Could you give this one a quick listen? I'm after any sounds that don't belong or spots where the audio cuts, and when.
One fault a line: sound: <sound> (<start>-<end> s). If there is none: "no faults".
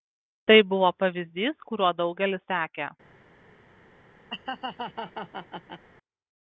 sound: laugh (4.3-5.8 s)